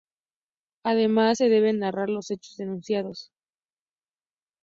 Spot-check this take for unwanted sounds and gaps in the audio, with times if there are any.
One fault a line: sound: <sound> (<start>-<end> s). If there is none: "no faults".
no faults